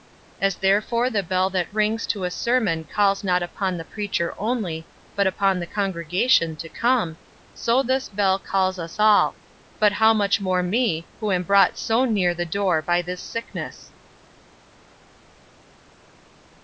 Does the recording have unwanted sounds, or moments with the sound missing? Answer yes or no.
no